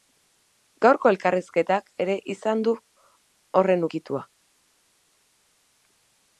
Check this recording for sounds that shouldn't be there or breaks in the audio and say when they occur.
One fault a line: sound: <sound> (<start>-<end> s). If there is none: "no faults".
no faults